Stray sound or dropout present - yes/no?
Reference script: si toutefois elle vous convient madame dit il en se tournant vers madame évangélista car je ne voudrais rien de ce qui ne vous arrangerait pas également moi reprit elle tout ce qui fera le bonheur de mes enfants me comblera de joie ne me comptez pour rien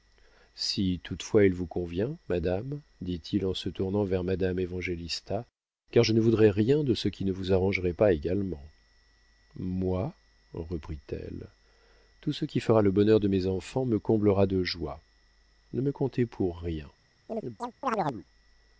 yes